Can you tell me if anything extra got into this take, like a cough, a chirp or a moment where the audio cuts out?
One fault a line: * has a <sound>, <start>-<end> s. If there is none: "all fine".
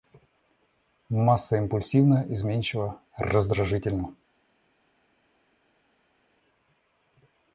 all fine